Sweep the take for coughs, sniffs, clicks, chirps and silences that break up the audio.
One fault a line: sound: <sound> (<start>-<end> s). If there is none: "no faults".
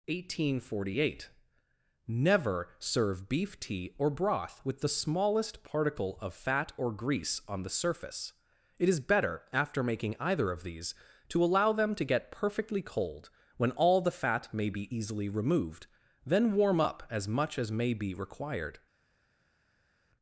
no faults